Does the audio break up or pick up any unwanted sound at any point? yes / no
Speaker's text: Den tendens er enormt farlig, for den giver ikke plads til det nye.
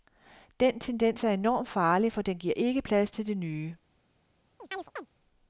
yes